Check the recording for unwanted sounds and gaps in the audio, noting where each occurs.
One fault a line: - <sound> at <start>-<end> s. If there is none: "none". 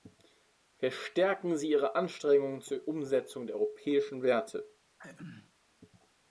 - throat clearing at 5.0-5.5 s